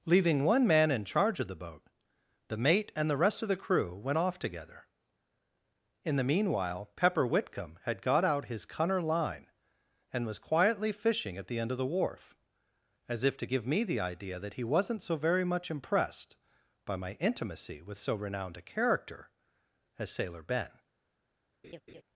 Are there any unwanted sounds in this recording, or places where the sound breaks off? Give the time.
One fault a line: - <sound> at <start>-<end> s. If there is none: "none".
- laugh at 21.6-22.0 s